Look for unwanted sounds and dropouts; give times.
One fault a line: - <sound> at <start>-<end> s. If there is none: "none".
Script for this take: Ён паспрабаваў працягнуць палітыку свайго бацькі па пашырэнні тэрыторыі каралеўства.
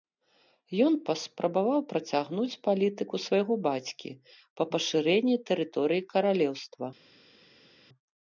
none